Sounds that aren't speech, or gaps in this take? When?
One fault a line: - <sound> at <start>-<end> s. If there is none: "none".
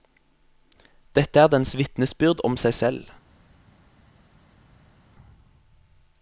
none